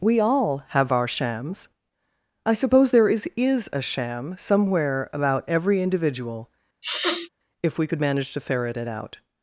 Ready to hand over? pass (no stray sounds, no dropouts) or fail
fail